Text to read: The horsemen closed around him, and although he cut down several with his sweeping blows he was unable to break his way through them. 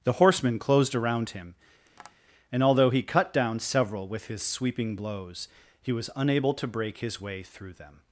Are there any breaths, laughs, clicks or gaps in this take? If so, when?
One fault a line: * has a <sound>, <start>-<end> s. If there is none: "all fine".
* has a tap, 1.9-2.2 s